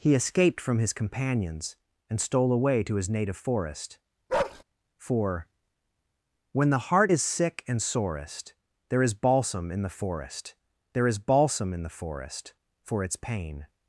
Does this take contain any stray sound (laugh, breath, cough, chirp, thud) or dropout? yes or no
yes